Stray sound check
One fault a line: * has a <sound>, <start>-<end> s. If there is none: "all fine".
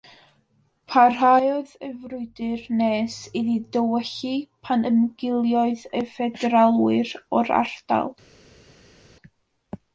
all fine